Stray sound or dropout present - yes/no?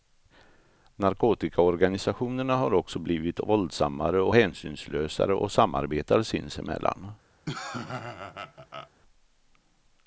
yes